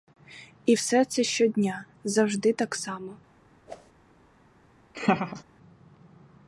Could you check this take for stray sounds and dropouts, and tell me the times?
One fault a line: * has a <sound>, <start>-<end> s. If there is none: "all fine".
* has a whoosh, 3.7-3.9 s
* has a laugh, 4.9-5.4 s